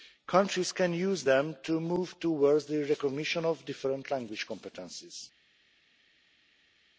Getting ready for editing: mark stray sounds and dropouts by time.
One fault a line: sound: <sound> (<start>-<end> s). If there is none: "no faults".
no faults